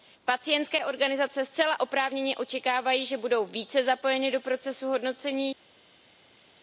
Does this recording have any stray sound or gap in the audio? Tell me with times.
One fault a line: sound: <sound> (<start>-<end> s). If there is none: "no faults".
no faults